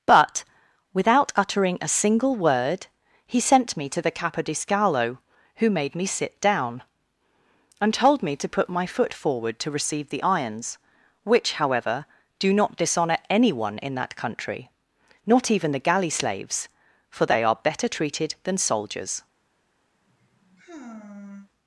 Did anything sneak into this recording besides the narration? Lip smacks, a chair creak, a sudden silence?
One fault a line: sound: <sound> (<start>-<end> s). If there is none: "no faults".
sound: sigh (19.9-21.5 s)